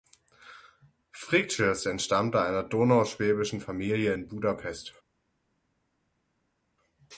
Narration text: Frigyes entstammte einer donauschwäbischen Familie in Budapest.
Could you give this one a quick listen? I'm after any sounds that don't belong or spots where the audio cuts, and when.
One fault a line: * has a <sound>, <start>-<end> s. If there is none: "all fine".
all fine